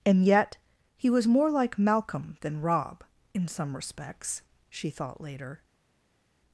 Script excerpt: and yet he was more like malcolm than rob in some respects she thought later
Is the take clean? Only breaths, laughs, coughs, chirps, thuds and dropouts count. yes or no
yes